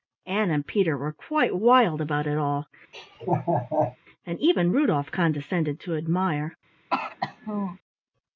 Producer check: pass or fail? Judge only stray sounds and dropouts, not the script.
fail